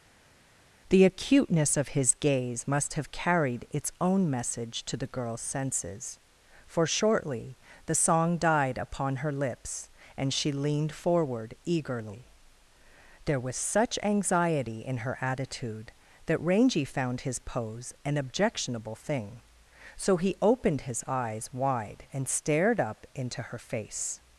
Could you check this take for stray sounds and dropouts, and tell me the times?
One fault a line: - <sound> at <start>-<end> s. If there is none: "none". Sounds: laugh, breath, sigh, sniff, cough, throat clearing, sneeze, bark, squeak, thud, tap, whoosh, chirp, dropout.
none